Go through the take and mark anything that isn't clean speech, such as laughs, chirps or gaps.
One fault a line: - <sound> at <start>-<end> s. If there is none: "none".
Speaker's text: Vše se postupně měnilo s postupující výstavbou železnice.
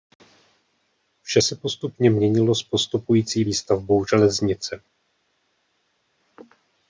none